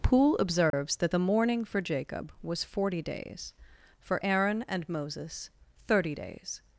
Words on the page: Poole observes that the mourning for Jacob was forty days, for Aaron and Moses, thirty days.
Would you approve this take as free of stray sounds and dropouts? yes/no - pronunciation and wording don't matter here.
no